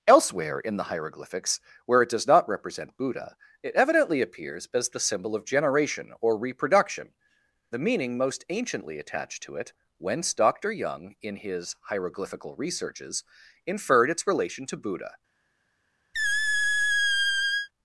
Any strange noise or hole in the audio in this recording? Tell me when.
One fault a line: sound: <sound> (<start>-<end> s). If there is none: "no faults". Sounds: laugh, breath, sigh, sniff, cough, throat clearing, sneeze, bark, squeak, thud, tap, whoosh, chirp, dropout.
sound: squeak (16.1-17.7 s)